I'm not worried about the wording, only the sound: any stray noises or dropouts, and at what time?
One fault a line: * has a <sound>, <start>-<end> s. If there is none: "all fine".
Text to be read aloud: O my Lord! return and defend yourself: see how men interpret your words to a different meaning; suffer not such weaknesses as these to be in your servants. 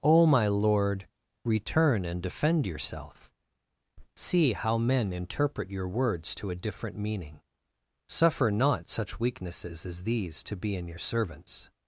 all fine